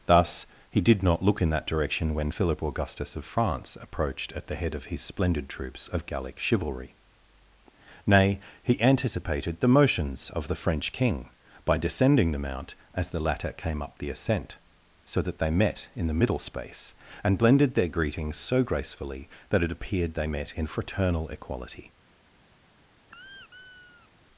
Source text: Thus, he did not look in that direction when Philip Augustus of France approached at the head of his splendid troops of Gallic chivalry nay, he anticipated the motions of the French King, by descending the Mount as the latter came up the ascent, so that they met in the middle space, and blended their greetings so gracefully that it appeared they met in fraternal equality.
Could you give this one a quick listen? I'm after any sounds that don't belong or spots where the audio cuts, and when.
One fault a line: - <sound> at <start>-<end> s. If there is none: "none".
- squeak at 23.0-24.1 s